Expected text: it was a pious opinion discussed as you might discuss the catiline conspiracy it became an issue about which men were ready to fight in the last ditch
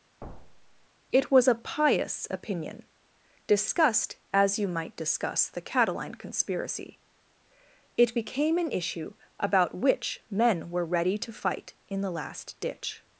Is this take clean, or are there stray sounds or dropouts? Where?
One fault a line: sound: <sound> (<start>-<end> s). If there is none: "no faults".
sound: thud (0.2-0.9 s)